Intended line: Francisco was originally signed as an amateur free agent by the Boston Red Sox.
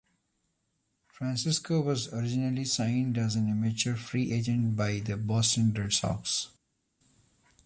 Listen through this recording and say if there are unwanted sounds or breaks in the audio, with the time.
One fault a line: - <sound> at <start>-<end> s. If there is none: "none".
none